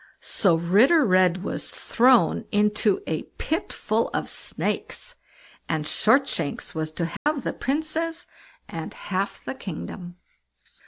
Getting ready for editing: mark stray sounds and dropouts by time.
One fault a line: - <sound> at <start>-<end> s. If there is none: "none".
- dropout at 7.2-7.3 s